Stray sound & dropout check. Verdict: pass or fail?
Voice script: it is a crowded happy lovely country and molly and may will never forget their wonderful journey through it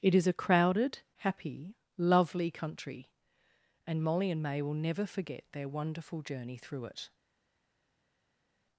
pass